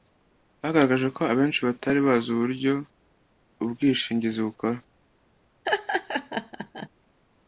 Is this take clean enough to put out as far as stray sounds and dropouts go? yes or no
no